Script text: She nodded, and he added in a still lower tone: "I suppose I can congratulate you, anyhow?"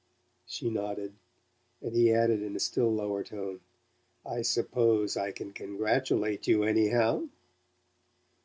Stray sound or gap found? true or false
false